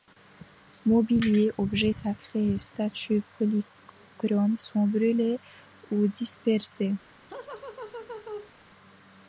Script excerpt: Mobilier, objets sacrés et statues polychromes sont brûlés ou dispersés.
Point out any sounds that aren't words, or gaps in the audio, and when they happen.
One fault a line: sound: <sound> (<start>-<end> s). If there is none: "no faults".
sound: laugh (7.3-8.5 s)